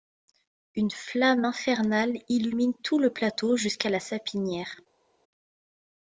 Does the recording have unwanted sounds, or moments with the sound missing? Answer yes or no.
no